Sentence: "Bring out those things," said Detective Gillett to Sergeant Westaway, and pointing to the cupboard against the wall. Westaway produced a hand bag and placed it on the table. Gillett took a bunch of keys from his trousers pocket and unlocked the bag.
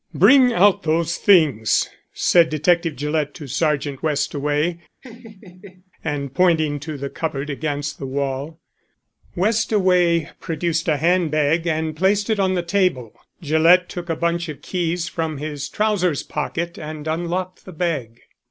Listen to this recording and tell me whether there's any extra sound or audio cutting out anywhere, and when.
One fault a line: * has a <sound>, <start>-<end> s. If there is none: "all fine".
* has a laugh, 5.0-5.9 s